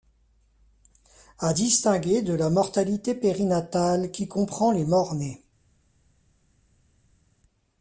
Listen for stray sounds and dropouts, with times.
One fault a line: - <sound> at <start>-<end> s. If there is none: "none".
none